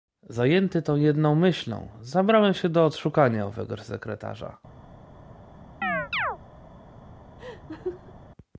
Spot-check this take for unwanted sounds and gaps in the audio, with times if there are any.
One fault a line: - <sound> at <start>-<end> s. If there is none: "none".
- chirp at 5.8-6.4 s
- laugh at 7.4-8.1 s